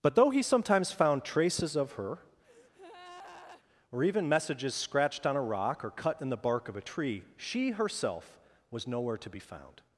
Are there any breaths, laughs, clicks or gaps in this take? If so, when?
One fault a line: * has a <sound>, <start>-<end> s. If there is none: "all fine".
* has a breath, 2.4-3.6 s